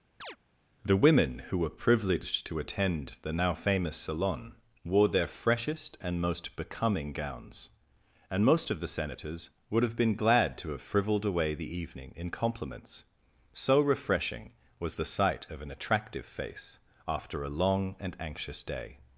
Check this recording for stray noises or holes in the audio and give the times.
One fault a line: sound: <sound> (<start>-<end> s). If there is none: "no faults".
sound: chirp (0.2-0.4 s)